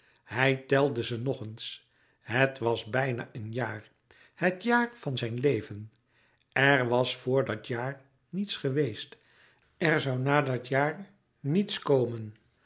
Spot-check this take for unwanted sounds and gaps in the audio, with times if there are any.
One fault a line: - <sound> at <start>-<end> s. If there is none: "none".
none